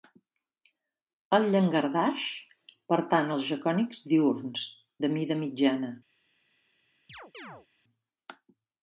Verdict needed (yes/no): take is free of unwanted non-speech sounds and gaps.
no